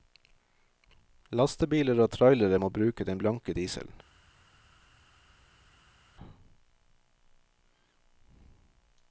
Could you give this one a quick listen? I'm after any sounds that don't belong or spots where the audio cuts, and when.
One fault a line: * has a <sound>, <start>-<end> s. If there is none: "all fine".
all fine